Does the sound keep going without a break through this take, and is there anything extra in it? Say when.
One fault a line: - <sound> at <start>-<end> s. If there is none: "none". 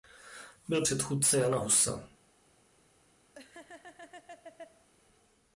- laugh at 3.3-4.9 s